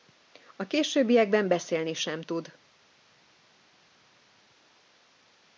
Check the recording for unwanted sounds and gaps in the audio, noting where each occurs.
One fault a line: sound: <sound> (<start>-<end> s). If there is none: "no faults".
no faults